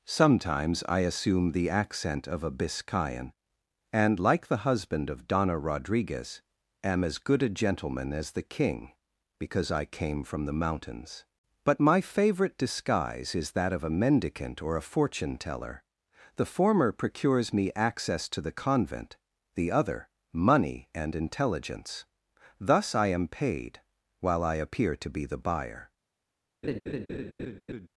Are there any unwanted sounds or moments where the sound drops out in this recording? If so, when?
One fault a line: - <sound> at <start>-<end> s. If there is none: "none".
- laugh at 26.6-27.9 s